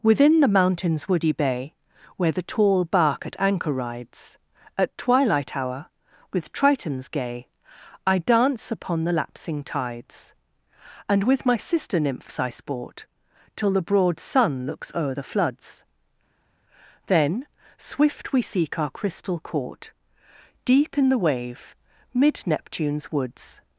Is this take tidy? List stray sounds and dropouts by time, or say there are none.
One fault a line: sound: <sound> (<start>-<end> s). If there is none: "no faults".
no faults